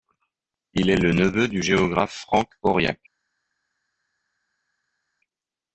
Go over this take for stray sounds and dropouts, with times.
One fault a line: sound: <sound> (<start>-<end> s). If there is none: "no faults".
no faults